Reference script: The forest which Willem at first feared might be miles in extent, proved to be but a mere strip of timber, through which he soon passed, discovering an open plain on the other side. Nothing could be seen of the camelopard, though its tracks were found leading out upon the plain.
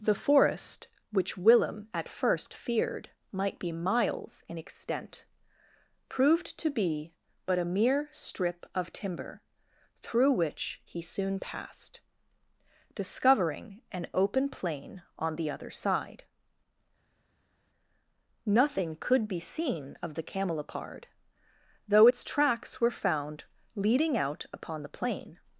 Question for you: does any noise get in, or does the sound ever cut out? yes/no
no